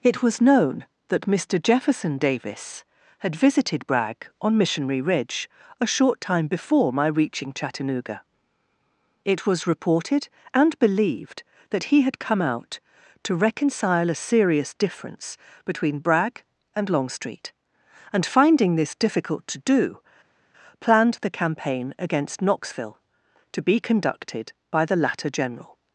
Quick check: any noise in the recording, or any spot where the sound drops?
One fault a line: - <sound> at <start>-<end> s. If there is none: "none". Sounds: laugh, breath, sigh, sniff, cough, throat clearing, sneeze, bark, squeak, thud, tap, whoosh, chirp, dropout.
none